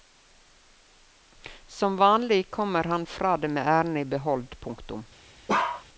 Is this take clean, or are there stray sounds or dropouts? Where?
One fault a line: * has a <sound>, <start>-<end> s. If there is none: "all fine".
* has a bark, 5.5-5.8 s